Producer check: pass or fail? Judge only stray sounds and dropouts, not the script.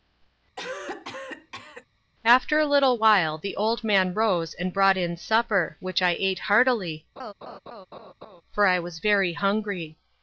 fail